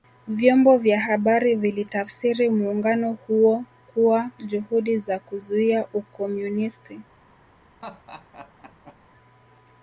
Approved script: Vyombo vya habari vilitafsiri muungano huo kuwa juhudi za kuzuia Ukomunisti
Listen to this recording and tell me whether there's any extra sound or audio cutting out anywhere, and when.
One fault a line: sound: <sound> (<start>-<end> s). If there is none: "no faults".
sound: laugh (7.8-9.0 s)